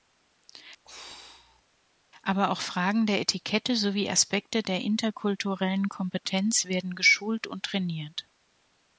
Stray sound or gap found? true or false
true